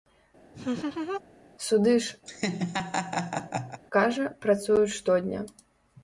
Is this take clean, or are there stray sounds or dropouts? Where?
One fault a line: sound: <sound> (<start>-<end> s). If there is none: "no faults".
sound: laugh (0.5-1.2 s)
sound: laugh (2.3-3.8 s)